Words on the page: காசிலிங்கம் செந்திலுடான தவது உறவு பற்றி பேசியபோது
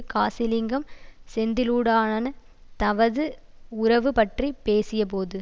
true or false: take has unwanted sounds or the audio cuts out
false